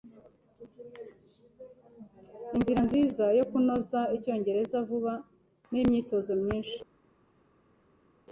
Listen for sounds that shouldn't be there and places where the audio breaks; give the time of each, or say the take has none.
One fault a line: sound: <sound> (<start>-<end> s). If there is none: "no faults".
no faults